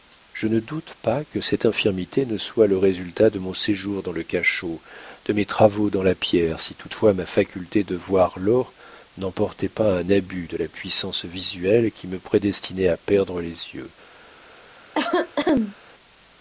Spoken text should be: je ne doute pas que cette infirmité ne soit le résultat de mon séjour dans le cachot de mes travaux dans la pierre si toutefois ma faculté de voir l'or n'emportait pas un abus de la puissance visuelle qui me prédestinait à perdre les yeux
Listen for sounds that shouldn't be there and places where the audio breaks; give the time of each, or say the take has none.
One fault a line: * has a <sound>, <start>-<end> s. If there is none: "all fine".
* has a cough, 14.9-15.8 s